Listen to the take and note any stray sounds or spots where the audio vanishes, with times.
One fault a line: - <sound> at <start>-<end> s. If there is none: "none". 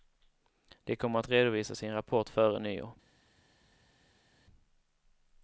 none